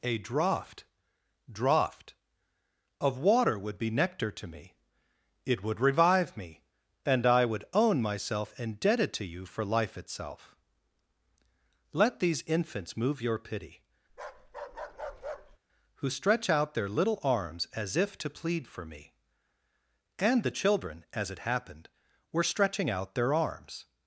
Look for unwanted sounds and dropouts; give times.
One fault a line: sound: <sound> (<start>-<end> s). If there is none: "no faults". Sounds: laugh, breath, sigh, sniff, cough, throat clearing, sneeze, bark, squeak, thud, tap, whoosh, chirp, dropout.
sound: bark (14.1-15.6 s)